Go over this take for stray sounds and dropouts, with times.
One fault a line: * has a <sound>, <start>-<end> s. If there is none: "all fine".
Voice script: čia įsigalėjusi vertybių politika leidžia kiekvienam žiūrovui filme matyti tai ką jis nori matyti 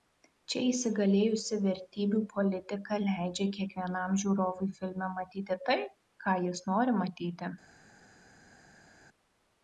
all fine